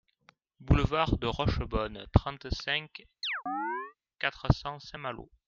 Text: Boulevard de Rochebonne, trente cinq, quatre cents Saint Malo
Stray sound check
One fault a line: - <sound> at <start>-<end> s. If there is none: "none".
- chirp at 3.2-3.9 s